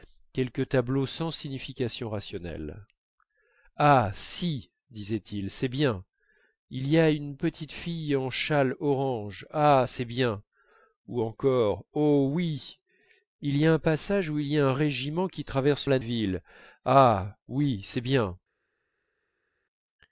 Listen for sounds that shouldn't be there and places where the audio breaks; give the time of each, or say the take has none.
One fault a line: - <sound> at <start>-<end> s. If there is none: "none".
none